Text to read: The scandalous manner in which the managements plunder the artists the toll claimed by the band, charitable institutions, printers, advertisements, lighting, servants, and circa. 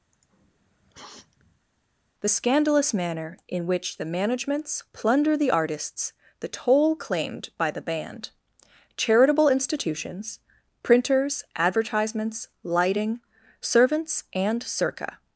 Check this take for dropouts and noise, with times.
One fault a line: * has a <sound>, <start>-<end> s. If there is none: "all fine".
* has a sniff, 0.1-1.7 s